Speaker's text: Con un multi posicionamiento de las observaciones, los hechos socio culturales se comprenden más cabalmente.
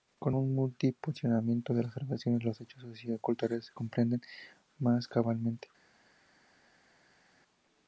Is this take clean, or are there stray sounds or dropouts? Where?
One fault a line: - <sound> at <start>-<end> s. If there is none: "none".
none